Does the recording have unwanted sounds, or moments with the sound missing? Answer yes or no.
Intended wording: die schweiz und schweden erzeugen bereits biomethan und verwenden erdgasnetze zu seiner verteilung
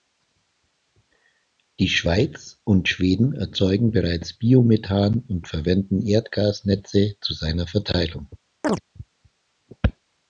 yes